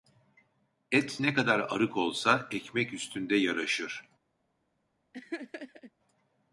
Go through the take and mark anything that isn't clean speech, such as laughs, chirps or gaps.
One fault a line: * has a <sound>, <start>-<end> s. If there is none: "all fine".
* has a laugh, 5.1-5.9 s